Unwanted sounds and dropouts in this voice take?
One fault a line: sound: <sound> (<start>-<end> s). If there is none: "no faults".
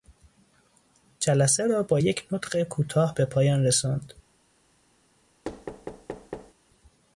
sound: thud (5.4-6.5 s)